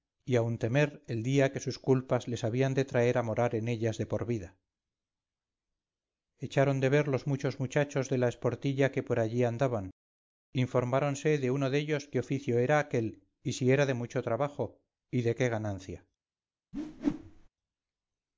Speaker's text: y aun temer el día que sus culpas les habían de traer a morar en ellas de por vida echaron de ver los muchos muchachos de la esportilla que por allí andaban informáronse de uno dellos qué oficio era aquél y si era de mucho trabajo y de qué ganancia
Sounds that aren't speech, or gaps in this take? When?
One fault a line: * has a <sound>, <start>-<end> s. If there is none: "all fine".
* has a whoosh, 16.7-17.5 s